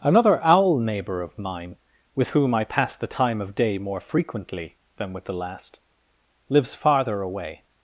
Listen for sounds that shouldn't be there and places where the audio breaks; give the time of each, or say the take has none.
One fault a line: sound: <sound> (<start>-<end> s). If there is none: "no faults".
no faults